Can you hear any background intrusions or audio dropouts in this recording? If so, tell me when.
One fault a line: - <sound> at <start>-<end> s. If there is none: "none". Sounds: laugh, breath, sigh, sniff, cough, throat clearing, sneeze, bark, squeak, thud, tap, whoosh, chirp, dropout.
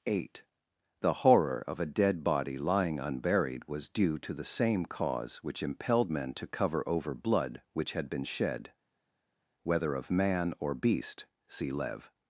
none